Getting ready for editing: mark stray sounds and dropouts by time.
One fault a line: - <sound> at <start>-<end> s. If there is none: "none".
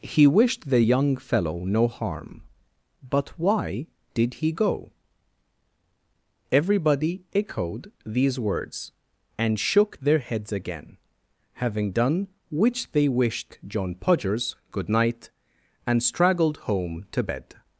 none